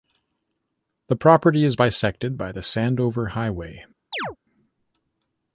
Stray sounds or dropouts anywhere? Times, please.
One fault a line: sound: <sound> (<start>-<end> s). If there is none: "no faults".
sound: chirp (4.1-4.4 s)